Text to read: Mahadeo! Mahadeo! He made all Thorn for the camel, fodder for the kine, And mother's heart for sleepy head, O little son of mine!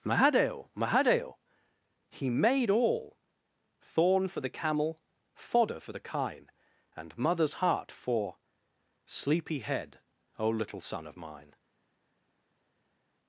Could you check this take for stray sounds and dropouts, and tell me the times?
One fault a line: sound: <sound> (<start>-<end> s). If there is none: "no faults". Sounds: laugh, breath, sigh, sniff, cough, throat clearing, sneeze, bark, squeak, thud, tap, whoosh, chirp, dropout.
no faults